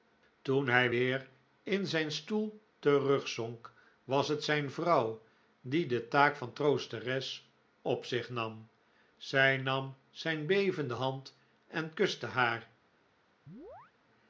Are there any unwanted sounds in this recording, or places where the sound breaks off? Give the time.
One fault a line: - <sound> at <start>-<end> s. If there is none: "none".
- chirp at 13.5-13.9 s